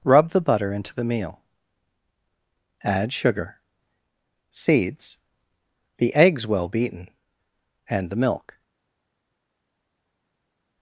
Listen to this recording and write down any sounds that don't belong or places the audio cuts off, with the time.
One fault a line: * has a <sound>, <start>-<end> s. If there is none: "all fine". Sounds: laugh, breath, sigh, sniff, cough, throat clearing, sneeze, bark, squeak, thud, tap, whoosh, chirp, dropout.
all fine